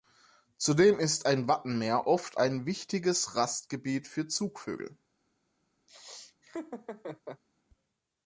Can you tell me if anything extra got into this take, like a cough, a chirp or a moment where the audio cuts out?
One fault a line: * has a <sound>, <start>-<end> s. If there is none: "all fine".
* has a laugh, 5.9-7.4 s